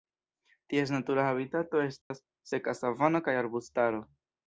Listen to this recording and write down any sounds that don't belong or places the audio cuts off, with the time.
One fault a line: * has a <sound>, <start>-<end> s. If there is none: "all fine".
* has a dropout, 2.0-2.1 s